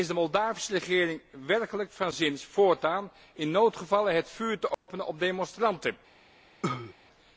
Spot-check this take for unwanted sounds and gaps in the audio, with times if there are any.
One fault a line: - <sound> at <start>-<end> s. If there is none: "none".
- dropout at 4.7-4.9 s
- cough at 6.6-6.9 s